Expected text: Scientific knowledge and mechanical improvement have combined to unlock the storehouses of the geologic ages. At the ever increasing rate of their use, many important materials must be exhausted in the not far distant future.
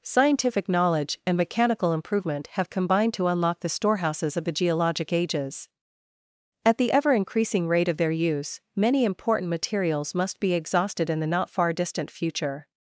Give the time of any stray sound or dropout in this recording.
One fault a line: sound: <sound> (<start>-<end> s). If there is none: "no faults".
no faults